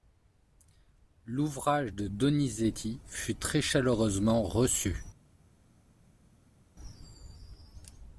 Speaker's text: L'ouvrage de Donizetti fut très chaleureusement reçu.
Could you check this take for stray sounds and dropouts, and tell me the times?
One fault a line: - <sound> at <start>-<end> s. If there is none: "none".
none